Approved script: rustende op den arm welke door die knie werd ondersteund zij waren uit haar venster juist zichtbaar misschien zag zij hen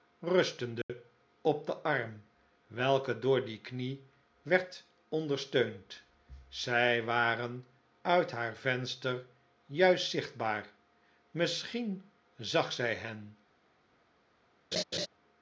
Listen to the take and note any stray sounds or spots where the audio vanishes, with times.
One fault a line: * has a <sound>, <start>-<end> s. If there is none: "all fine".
* has a dropout, 0.8-0.9 s
* has a laugh, 14.7-15.1 s